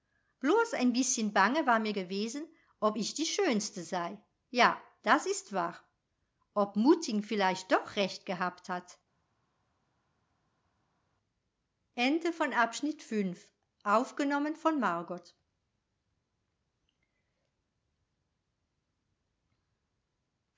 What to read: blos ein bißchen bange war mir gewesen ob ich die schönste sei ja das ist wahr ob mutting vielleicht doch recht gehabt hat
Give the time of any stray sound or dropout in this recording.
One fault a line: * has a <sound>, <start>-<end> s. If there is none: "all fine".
all fine